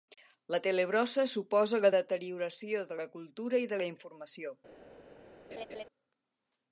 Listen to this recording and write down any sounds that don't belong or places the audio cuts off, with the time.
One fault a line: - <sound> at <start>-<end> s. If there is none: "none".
- laugh at 5.5-5.8 s